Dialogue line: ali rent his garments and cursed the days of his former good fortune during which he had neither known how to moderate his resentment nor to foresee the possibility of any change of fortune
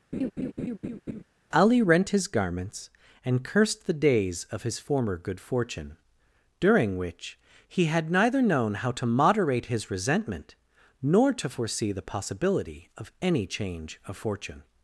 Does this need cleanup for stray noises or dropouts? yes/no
yes